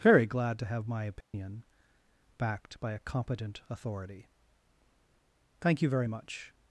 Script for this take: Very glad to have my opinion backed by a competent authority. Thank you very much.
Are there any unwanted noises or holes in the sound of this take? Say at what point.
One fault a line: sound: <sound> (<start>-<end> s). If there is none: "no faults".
sound: dropout (1.2-1.3 s)